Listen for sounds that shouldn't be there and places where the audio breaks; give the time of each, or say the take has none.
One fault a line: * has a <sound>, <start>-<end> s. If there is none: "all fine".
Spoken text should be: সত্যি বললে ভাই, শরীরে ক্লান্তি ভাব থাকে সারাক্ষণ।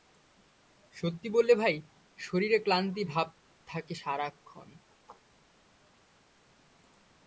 all fine